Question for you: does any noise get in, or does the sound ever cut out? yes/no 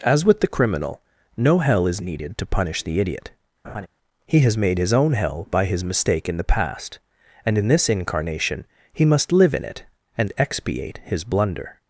yes